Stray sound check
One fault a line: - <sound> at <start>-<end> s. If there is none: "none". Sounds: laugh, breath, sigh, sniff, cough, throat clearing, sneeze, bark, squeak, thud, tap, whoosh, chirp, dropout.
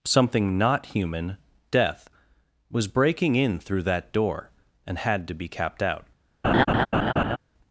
- laugh at 6.4-7.4 s